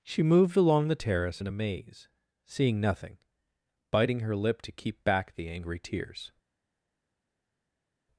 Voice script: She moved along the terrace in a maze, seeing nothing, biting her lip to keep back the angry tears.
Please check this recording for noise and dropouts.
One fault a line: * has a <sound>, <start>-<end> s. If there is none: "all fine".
all fine